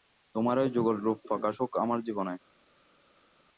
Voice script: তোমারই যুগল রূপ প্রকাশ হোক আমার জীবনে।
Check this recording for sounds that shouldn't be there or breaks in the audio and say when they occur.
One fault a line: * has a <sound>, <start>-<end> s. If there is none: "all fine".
all fine